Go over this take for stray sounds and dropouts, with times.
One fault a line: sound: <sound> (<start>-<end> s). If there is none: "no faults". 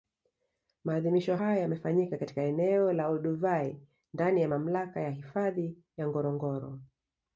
no faults